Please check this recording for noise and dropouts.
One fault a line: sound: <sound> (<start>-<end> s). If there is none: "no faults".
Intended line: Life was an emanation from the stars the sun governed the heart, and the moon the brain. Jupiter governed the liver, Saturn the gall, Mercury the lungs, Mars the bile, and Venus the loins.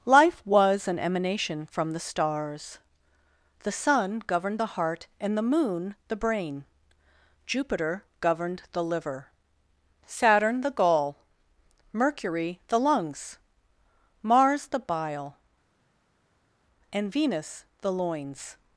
no faults